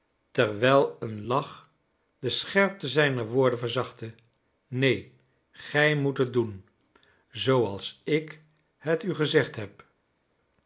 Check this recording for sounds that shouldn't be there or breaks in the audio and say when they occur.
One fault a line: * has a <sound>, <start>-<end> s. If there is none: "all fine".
all fine